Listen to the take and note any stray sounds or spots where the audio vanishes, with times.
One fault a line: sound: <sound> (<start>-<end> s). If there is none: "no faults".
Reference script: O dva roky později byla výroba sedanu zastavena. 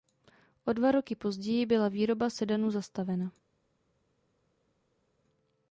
no faults